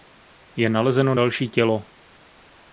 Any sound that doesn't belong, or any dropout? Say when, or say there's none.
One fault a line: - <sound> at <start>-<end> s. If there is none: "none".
none